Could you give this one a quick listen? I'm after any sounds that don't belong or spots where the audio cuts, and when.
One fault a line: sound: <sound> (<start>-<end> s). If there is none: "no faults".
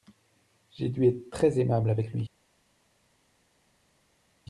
no faults